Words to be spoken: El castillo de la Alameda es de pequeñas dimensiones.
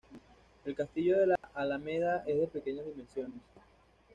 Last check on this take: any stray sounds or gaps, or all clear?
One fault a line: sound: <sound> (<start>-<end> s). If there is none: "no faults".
sound: dropout (1.4-1.4 s)